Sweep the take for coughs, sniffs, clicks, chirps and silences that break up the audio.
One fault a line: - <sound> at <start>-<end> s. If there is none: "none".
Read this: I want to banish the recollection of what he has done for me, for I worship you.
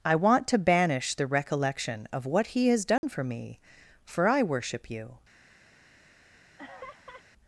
- dropout at 3.0-3.0 s
- laugh at 6.6-7.2 s